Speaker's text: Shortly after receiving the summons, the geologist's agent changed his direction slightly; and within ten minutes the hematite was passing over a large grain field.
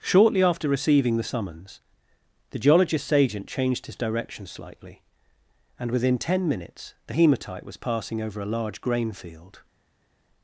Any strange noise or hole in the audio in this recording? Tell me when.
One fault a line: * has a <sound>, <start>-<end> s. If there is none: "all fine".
all fine